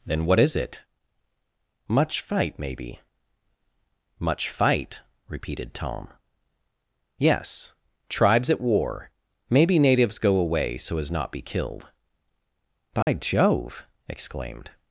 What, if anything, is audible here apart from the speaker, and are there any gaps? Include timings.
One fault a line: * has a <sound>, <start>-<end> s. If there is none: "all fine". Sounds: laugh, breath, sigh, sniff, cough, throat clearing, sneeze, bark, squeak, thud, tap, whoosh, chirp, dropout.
* has a dropout, 13.0-13.1 s